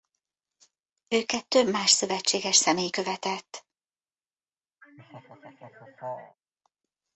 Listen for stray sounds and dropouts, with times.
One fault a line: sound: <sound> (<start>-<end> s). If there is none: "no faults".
sound: laugh (4.8-6.4 s)